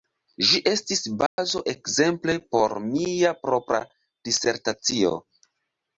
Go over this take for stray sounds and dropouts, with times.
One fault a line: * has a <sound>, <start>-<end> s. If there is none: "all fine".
* has a dropout, 1.3-1.4 s